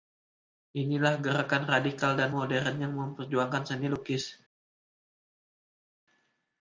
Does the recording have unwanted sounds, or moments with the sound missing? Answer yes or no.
no